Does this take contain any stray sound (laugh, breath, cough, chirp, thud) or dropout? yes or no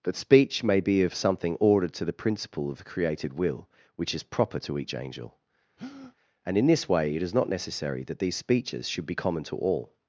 yes